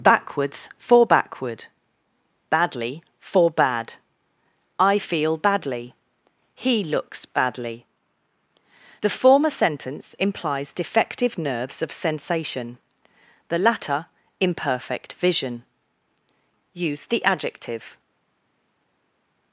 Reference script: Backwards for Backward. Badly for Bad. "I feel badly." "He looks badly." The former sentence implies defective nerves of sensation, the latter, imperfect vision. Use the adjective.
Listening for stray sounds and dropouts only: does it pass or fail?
pass